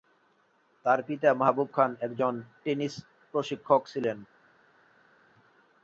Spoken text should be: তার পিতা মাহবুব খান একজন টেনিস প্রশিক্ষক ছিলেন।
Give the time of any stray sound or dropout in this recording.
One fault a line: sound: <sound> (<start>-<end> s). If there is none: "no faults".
no faults